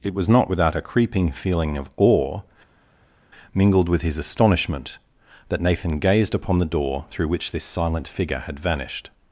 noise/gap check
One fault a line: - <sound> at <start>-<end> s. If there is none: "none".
none